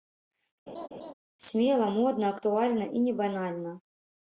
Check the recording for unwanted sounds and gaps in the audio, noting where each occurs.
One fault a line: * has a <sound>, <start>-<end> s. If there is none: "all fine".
* has a laugh, 0.7-1.1 s